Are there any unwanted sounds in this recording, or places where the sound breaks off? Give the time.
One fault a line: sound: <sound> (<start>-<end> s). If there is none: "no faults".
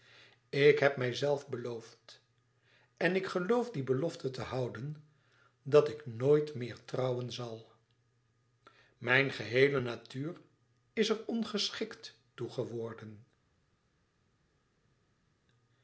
no faults